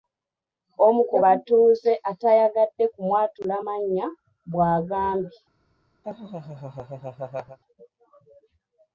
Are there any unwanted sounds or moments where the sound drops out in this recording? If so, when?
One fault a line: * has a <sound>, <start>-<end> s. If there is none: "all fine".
* has a laugh, 6.0-7.6 s